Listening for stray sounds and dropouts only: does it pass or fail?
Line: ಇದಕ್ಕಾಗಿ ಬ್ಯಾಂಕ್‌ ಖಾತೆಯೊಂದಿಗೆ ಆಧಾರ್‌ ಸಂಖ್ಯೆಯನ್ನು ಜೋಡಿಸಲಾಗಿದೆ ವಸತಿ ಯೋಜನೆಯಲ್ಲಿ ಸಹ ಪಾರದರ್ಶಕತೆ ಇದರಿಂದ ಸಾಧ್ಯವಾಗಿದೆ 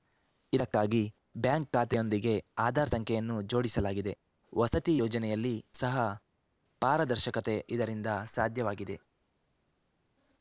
pass